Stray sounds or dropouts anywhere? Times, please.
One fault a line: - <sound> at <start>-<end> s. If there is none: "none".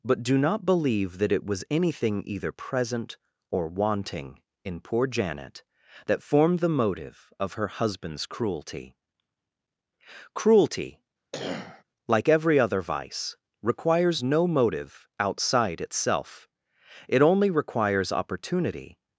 - cough at 11.3-11.8 s